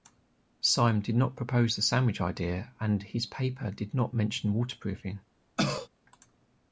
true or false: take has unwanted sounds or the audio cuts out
true